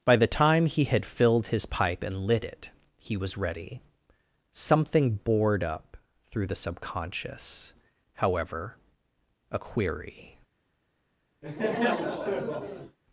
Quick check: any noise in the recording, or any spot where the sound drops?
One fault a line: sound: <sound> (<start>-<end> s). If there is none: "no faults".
sound: laugh (11.4-13.0 s)